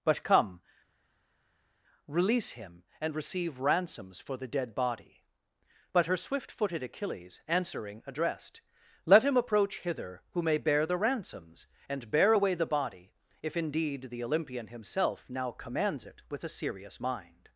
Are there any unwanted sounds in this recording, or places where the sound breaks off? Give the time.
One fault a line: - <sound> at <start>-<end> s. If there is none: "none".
none